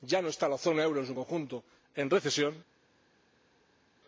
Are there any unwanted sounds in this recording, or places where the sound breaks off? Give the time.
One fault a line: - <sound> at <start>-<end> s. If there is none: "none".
none